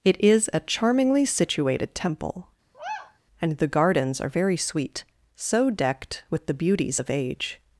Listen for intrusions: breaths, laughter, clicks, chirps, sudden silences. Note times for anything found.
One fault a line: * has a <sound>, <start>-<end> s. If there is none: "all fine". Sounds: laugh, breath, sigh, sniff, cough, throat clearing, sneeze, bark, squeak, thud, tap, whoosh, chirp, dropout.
* has a sigh, 2.7-3.2 s